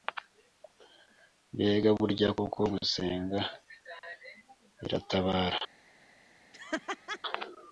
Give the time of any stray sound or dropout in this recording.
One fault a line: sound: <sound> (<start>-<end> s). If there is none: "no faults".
sound: laugh (6.5-7.2 s)